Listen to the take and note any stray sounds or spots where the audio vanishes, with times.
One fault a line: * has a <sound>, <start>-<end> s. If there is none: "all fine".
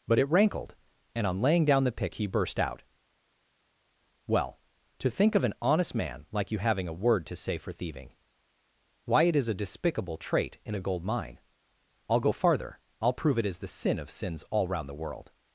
all fine